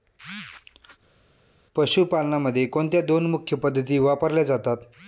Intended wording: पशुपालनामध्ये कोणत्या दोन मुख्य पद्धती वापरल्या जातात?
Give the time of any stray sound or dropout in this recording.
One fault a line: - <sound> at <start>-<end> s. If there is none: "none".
none